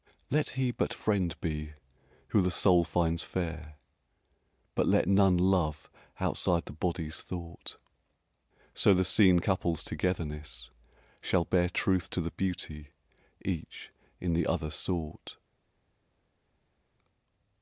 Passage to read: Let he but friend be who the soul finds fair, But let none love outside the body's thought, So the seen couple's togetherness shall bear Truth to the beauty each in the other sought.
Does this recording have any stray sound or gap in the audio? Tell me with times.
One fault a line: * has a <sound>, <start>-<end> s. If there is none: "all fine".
all fine